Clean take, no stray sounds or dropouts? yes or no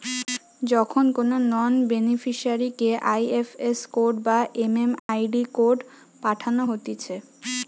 no